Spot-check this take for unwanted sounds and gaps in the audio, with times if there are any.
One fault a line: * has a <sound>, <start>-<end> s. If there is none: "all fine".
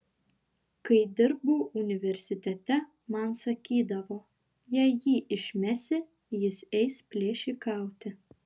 all fine